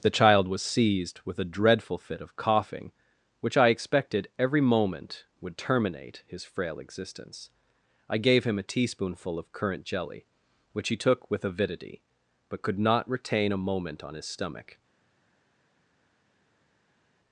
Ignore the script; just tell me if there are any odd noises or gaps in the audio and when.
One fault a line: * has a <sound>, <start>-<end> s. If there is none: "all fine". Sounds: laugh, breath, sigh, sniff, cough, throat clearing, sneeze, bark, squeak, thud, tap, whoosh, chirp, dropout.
all fine